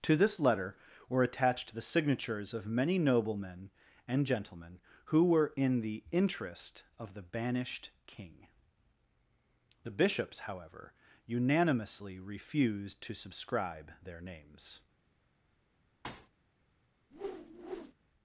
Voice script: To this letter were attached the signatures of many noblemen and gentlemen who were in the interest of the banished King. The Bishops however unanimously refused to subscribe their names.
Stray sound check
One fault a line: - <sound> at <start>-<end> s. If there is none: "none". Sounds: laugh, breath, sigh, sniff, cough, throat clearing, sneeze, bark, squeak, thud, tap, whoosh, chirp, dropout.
- thud at 16.0-16.3 s
- whoosh at 17.1-17.9 s